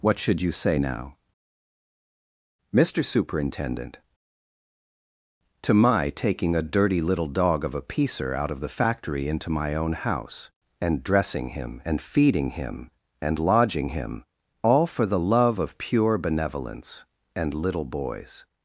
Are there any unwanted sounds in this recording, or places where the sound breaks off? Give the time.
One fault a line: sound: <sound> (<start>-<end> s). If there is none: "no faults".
no faults